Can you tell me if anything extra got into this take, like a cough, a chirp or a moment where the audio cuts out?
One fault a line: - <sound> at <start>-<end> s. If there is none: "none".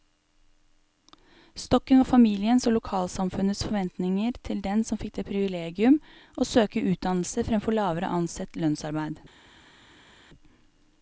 none